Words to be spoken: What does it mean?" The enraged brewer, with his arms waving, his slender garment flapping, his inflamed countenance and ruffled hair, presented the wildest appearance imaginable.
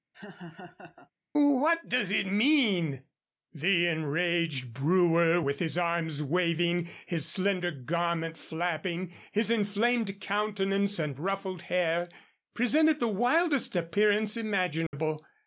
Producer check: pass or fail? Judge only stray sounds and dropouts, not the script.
fail